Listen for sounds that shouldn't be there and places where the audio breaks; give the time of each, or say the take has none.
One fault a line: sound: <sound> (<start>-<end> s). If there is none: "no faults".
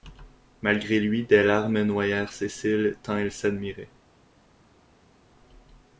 no faults